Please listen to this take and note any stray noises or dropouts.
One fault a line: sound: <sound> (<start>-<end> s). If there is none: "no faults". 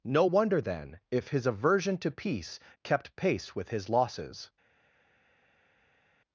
no faults